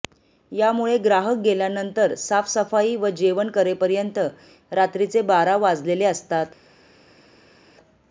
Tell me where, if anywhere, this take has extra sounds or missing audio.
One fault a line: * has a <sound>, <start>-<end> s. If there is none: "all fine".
all fine